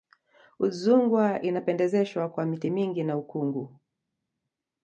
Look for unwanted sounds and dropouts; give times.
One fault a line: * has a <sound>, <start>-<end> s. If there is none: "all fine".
all fine